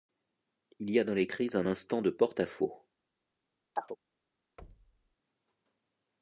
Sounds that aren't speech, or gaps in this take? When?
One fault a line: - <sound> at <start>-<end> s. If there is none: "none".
- chirp at 3.8-4.0 s
- thud at 4.6-5.2 s